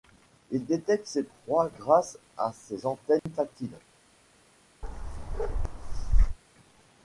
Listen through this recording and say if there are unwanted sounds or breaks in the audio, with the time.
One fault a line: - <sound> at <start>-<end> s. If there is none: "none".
- dropout at 3.2-3.3 s
- bark at 4.8-6.4 s